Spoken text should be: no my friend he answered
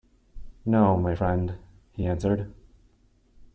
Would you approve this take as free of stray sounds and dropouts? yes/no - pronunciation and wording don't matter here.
yes